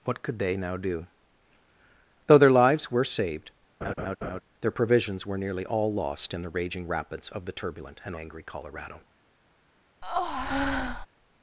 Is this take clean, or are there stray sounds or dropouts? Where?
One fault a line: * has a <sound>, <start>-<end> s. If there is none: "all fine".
* has a laugh, 3.8-4.4 s
* has a breath, 10.0-11.1 s